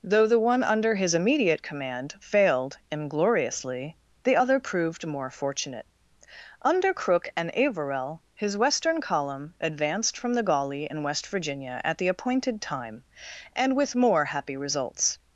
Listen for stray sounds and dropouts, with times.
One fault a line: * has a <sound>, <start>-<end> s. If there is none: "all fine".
all fine